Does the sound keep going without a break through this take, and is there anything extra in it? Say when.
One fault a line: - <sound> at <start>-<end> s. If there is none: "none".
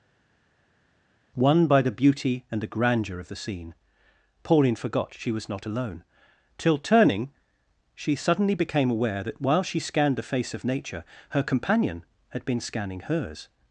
none